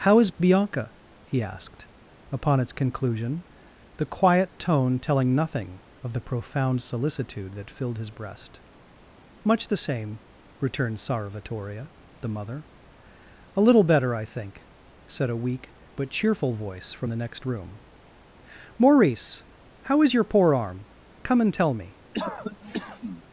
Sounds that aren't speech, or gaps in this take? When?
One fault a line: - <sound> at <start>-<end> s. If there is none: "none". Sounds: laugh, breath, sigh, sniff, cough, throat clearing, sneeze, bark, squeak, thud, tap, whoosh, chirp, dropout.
- cough at 22.1-23.2 s